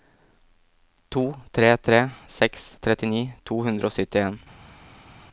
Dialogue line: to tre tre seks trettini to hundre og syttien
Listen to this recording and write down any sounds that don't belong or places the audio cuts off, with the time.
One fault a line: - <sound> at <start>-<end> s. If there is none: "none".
none